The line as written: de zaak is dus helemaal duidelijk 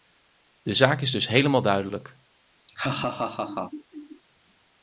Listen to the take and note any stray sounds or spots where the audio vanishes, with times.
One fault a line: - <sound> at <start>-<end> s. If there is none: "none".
- laugh at 2.7-4.2 s